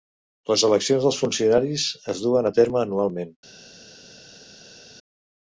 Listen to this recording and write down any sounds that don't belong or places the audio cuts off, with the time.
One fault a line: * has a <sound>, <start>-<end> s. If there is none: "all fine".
all fine